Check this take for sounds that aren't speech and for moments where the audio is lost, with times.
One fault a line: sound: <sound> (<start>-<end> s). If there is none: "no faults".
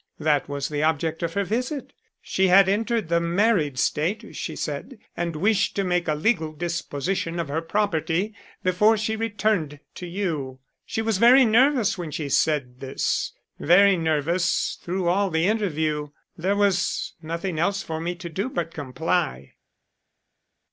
no faults